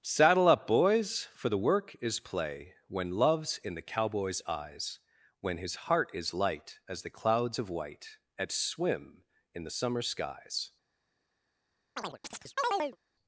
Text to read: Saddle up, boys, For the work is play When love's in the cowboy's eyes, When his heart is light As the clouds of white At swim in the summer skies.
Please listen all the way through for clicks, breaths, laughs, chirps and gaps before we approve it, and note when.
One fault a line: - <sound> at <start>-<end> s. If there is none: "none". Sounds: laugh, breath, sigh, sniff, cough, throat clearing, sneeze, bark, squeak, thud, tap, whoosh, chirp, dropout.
- chirp at 12.0-13.0 s